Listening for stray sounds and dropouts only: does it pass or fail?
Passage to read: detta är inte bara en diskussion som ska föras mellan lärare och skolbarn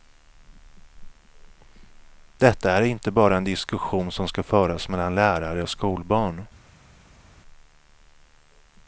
pass